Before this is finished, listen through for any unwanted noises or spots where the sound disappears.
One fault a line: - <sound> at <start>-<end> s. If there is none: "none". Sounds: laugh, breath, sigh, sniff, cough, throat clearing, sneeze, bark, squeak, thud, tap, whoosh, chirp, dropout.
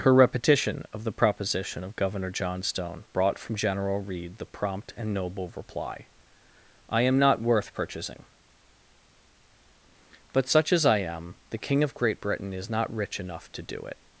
none